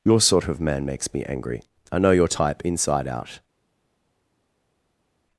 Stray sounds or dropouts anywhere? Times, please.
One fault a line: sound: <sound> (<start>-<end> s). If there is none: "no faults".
no faults